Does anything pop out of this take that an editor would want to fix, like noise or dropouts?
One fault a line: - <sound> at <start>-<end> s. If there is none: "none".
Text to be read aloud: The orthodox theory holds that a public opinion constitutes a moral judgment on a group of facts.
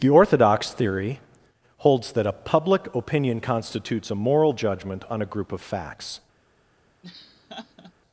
- laugh at 7.0-7.9 s